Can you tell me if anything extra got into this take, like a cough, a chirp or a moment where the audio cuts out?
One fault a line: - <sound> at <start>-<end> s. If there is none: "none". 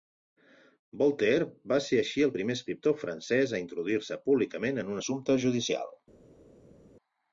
none